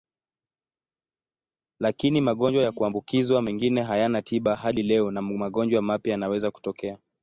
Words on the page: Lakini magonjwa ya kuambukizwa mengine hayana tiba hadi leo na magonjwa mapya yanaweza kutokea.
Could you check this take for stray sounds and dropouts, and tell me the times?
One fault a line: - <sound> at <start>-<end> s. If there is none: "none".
none